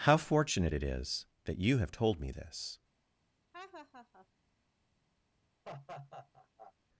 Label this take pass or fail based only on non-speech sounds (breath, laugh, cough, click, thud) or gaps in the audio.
fail